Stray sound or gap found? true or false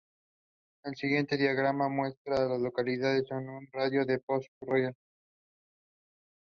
false